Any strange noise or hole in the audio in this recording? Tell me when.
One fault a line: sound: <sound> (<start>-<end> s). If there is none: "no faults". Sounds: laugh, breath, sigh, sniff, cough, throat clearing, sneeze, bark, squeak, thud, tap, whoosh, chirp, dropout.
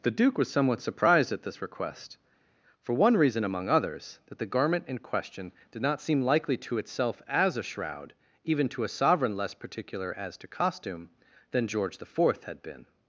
no faults